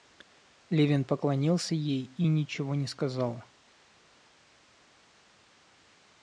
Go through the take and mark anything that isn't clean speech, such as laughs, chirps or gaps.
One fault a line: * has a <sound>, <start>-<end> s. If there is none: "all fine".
all fine